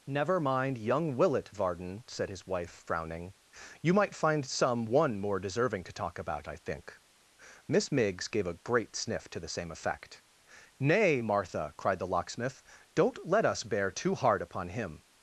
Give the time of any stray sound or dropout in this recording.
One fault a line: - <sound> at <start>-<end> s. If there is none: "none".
none